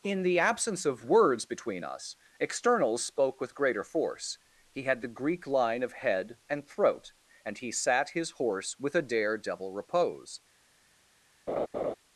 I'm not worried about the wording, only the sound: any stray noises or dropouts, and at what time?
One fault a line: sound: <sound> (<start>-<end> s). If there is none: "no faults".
sound: laugh (11.5-11.9 s)